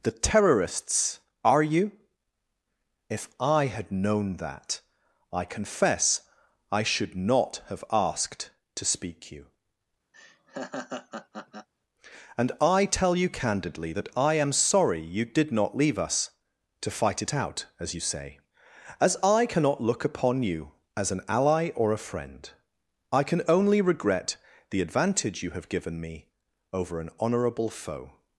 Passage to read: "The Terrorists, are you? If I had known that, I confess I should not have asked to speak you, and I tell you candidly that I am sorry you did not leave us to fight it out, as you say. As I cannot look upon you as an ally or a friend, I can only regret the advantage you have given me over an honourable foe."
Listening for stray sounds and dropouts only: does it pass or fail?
fail